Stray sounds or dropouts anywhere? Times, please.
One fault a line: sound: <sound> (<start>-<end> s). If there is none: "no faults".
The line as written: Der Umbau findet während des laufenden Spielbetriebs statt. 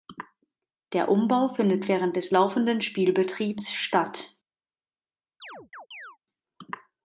sound: chirp (5.4-6.2 s)